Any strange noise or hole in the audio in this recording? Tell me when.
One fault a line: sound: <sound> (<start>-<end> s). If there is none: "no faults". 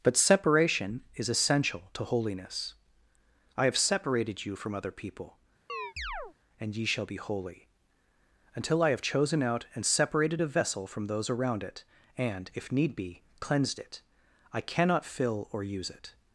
sound: chirp (5.7-6.3 s)